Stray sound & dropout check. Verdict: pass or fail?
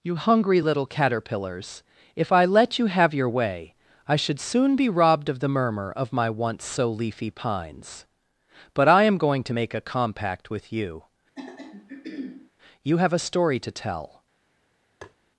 fail